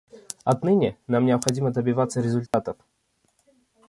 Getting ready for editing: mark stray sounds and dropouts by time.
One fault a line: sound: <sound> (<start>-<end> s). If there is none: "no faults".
sound: dropout (2.5-2.5 s)